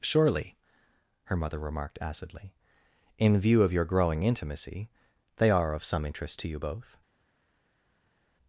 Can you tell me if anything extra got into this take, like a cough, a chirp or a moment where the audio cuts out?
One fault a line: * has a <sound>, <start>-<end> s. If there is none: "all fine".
all fine